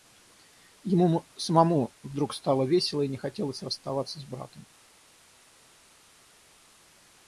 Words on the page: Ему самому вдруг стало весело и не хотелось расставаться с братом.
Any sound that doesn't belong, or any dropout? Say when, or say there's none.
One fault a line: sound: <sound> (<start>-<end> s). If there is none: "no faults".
no faults